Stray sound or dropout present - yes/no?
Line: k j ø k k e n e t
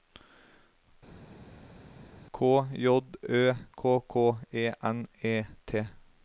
no